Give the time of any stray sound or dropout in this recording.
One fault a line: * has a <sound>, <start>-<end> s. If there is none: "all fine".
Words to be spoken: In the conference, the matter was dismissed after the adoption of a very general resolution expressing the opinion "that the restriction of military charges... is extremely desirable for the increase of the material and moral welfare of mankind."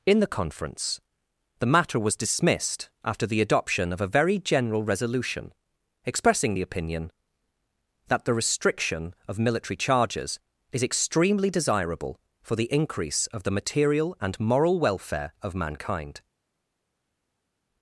all fine